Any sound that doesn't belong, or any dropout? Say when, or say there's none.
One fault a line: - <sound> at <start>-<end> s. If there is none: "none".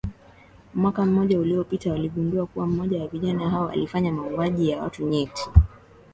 none